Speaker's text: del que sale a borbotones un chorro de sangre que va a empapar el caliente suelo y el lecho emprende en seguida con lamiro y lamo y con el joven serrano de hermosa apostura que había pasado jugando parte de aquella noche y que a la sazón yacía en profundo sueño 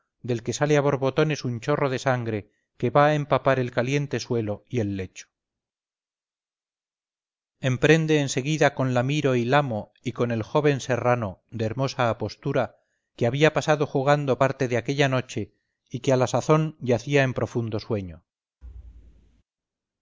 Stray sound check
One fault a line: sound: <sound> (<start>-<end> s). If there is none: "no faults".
sound: thud (18.6-19.4 s)